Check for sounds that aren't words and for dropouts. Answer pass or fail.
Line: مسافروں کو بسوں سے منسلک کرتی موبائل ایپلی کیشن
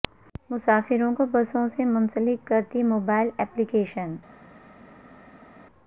pass